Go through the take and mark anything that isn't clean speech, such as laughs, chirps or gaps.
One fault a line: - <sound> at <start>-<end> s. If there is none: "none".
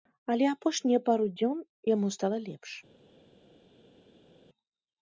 none